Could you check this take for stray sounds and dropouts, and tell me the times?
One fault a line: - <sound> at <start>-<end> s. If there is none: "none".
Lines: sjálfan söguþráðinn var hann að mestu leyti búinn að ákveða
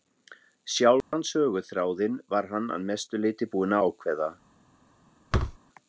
- dropout at 1.0-1.1 s
- thud at 5.3-5.6 s